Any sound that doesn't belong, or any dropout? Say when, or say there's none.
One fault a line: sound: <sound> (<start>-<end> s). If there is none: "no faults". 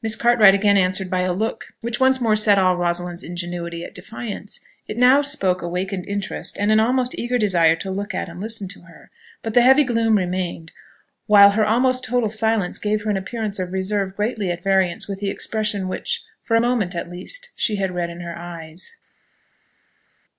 no faults